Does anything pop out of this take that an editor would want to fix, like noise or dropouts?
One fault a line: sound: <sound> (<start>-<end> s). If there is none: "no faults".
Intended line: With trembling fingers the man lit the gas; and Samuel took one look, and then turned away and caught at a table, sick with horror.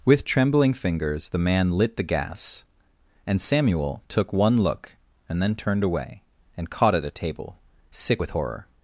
no faults